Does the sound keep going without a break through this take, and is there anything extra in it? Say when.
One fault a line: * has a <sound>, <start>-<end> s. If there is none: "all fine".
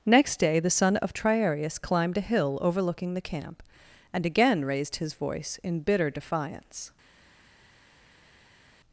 all fine